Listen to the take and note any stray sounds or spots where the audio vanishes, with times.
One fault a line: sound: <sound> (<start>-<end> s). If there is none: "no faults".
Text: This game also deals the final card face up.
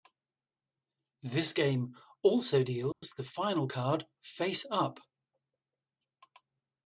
sound: dropout (2.9-3.0 s)